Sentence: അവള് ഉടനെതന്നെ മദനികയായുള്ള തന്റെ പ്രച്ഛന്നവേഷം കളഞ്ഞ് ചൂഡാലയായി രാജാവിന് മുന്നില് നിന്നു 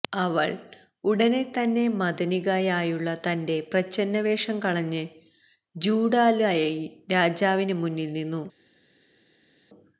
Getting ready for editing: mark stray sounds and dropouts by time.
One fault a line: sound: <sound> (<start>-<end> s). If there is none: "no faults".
no faults